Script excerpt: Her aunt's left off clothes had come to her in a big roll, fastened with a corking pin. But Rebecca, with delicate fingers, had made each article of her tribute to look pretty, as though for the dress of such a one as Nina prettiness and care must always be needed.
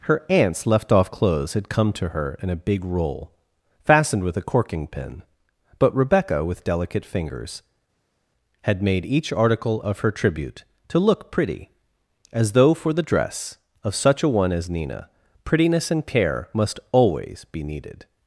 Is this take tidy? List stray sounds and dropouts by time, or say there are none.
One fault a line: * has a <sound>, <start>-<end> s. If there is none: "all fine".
all fine